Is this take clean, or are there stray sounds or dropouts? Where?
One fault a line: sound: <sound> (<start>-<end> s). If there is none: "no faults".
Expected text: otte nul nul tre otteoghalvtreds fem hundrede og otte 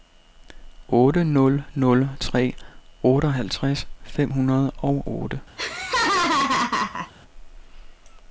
sound: laugh (5.6-7.1 s)